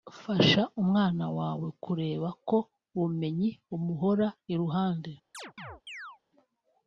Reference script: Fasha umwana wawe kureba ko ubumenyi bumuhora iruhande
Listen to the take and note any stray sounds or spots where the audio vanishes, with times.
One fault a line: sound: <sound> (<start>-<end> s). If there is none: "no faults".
sound: chirp (5.3-6.2 s)